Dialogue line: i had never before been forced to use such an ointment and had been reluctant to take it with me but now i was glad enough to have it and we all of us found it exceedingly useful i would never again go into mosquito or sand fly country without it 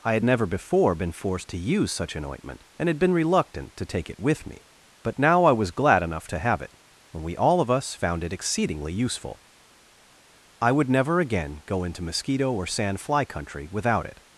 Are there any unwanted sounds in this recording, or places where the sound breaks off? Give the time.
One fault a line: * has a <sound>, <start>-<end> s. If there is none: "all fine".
all fine